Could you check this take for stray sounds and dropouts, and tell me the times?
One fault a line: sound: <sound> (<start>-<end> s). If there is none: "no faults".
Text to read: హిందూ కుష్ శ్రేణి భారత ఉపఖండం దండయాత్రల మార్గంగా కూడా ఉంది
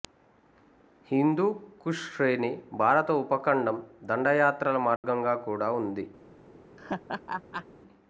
sound: dropout (5.0-5.0 s)
sound: laugh (6.8-7.7 s)